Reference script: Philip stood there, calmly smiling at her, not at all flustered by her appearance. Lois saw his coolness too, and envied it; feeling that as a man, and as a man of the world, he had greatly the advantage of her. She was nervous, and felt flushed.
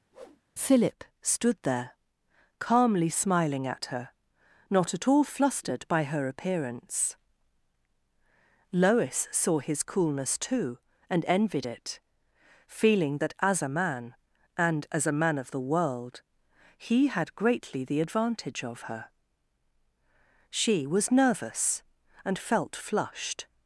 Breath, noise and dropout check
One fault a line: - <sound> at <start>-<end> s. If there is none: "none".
- whoosh at 0.1-0.4 s